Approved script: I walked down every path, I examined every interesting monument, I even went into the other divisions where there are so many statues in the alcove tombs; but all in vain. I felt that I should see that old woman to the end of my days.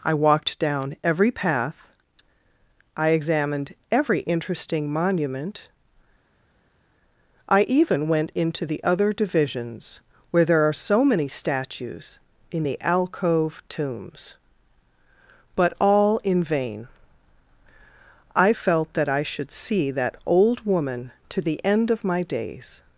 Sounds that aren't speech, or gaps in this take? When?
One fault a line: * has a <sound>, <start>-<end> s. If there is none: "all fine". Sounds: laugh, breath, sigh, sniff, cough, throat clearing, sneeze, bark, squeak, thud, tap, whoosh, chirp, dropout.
all fine